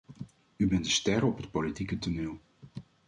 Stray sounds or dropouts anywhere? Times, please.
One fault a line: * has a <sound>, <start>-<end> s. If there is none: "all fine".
all fine